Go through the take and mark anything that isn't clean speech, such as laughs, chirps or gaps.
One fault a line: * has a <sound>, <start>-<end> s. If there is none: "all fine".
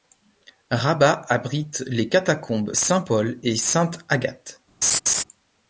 * has a laugh, 4.8-5.2 s